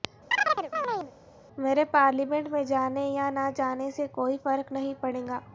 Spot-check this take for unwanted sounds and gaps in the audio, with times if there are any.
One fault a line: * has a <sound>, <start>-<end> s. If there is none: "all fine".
* has a chirp, 0.3-1.1 s